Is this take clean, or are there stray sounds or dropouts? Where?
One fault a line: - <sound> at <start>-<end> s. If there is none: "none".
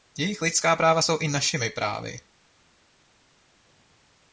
none